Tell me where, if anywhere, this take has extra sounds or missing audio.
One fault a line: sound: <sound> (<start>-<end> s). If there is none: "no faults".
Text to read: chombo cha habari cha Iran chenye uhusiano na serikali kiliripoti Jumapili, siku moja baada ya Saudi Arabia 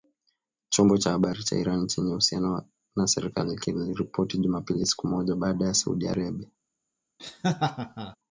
sound: laugh (7.2-8.2 s)